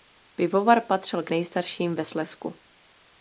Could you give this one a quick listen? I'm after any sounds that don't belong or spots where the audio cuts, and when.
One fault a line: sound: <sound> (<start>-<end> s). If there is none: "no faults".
no faults